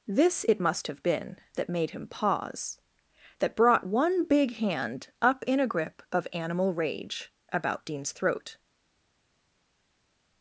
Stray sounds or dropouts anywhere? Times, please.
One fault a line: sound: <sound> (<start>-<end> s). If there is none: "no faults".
no faults